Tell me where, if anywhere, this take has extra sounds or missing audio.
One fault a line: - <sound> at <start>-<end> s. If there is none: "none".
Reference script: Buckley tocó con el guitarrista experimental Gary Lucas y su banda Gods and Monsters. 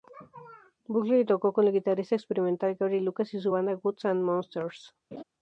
- laugh at 5.1-5.2 s